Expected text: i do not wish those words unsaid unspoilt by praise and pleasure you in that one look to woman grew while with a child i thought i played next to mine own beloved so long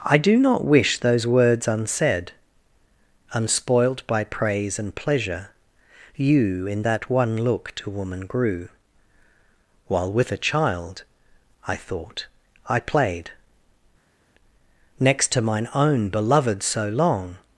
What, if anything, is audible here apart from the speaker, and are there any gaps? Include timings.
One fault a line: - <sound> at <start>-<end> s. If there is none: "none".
none